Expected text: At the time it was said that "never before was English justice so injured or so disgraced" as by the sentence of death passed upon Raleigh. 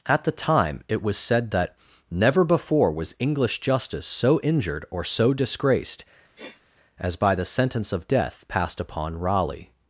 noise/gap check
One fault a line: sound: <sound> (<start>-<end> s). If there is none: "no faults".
sound: sniff (6.3-6.6 s)